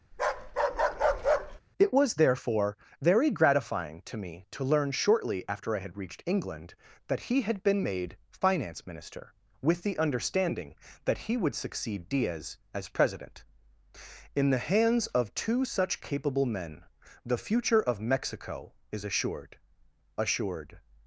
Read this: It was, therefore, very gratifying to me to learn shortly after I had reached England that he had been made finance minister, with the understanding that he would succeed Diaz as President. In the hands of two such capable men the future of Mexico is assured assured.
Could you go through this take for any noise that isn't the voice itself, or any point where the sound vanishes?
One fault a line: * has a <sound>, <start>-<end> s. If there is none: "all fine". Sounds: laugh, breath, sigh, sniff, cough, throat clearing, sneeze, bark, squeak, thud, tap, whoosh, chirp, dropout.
* has a bark, 0.1-1.6 s